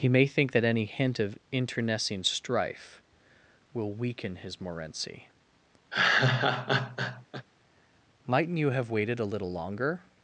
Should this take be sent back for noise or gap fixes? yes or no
yes